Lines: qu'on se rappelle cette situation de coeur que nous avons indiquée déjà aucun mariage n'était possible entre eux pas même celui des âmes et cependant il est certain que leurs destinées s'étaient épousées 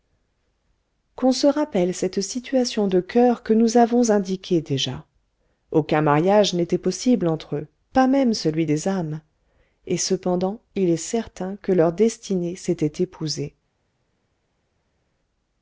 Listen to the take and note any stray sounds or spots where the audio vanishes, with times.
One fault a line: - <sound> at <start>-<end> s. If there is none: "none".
none